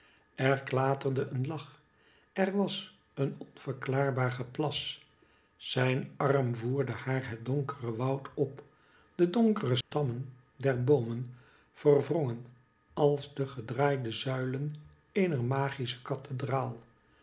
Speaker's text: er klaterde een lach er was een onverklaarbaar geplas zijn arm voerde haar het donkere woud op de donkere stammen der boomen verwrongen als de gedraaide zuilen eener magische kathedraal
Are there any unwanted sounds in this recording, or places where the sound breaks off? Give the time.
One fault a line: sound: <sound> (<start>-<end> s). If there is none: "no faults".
sound: dropout (9.8-9.9 s)